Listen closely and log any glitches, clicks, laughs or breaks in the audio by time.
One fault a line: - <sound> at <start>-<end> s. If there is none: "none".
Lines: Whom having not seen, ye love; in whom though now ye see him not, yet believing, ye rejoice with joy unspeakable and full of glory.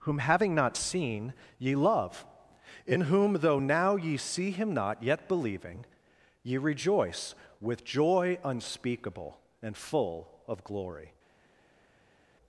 none